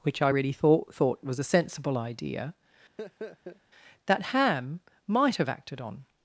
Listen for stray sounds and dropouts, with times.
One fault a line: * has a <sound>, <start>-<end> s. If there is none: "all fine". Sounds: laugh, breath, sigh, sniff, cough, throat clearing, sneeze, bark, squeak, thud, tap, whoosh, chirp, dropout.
* has a laugh, 3.0-3.6 s